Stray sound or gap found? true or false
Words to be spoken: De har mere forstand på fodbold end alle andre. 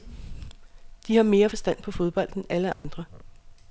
true